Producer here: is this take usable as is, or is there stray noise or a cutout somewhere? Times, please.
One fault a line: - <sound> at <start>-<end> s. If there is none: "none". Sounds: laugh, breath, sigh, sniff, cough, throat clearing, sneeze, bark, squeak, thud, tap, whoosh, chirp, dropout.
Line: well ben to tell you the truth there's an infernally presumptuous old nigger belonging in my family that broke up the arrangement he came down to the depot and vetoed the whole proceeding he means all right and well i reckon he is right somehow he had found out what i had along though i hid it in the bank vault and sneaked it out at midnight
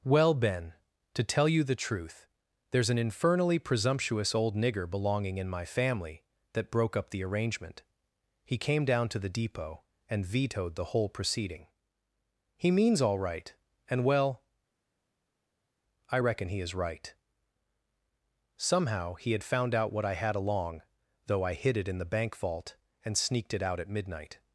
none